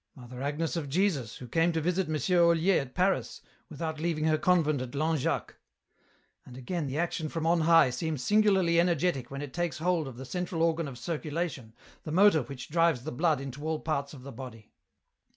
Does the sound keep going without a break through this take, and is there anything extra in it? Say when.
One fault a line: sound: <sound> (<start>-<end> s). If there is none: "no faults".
no faults